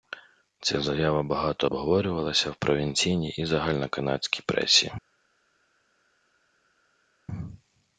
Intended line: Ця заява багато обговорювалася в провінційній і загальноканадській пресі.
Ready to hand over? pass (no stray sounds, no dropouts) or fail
pass